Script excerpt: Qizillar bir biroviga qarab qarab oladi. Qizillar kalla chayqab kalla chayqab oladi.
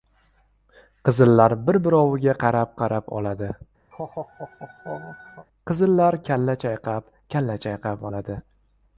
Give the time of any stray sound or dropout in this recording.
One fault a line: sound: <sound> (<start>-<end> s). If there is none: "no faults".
sound: laugh (3.9-5.5 s)